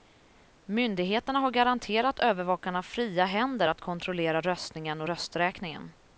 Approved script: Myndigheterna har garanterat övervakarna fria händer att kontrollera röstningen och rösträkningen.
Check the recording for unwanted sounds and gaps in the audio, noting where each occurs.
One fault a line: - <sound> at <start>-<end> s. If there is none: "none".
none